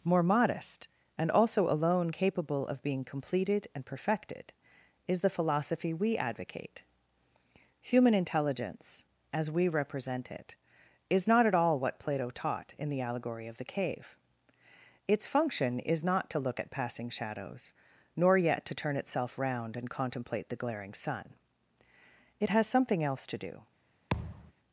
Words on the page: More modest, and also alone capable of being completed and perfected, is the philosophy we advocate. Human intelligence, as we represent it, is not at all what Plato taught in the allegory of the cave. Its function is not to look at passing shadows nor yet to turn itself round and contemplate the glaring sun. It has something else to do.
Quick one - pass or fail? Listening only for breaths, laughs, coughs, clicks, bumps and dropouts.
fail